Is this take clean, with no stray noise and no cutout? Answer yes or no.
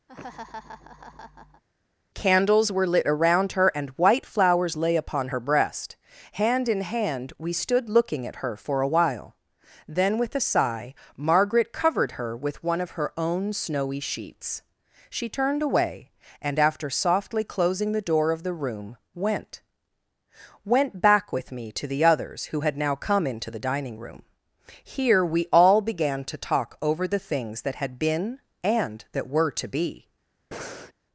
no